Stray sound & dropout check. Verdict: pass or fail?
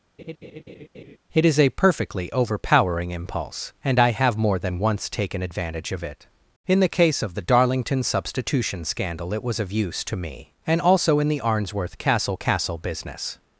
fail